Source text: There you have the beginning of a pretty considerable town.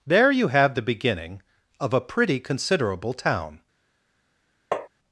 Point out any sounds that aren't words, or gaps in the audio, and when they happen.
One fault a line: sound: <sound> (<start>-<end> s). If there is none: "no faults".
sound: tap (4.7-4.9 s)